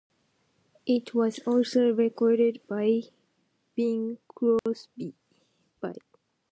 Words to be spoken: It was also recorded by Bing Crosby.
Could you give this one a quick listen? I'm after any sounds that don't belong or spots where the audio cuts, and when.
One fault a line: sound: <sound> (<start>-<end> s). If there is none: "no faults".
sound: dropout (4.6-4.7 s)